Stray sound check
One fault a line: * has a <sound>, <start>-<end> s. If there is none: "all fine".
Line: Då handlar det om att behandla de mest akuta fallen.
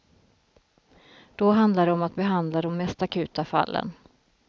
all fine